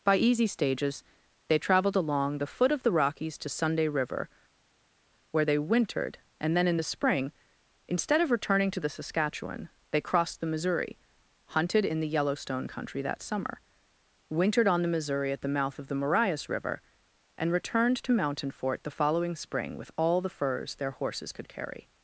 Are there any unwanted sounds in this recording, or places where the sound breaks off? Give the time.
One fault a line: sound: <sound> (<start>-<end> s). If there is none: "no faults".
no faults